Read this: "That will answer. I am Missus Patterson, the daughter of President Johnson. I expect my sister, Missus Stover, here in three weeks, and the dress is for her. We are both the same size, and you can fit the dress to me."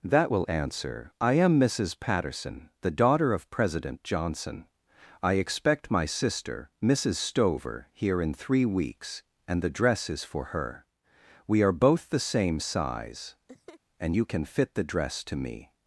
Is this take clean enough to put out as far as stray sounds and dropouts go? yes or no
no